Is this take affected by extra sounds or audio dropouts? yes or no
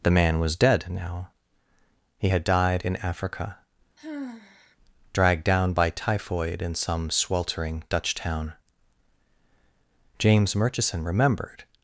yes